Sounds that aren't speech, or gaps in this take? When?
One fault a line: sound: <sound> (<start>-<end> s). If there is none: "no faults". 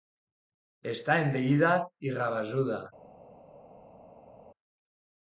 no faults